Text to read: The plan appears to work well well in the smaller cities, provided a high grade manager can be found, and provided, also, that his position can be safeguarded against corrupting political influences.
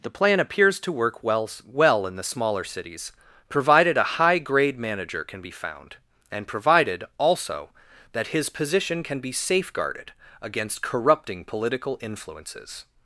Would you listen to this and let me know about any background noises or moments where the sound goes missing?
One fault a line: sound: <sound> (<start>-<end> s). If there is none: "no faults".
no faults